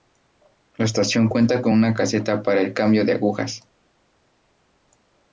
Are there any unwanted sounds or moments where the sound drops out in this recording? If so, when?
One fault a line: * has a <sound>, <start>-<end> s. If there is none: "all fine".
all fine